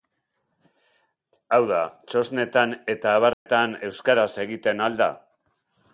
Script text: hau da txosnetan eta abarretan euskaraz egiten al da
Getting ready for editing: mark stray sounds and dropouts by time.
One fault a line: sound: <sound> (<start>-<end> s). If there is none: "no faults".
sound: dropout (3.3-3.5 s)